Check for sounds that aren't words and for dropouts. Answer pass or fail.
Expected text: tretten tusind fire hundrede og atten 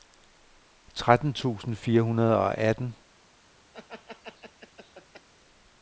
fail